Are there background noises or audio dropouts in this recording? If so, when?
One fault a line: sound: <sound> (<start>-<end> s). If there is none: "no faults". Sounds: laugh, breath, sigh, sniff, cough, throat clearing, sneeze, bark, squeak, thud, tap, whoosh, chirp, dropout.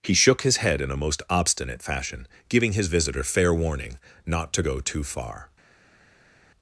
no faults